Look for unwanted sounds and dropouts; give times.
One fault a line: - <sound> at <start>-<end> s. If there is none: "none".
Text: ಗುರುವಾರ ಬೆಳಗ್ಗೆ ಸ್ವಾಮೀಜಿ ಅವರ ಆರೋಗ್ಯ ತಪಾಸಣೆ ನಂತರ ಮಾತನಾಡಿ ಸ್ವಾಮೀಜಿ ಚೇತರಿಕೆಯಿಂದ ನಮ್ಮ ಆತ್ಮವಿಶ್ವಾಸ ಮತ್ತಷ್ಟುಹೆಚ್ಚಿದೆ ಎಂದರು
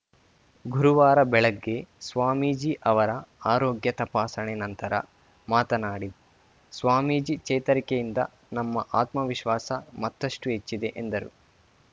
none